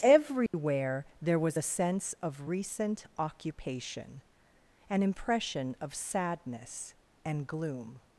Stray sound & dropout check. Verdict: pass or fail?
fail